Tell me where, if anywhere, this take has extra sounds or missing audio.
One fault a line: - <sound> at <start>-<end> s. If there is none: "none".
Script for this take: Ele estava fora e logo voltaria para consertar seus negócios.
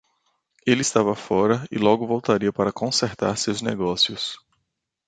none